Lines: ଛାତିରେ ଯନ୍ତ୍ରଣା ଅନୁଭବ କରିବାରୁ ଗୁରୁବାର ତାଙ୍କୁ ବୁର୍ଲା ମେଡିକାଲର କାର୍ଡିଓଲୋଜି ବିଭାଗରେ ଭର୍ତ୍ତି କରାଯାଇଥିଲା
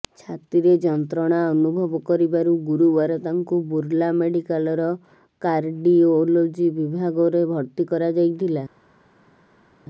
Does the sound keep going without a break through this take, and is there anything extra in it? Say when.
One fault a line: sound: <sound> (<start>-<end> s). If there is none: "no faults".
no faults